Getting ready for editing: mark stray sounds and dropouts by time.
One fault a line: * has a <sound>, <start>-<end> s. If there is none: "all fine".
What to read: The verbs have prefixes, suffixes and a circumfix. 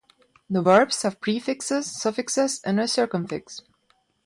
all fine